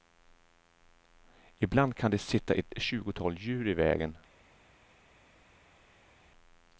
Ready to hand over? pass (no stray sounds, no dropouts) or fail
pass